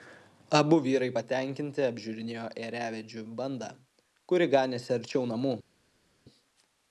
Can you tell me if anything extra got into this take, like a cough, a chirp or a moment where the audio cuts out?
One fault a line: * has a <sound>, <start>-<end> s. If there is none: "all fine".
all fine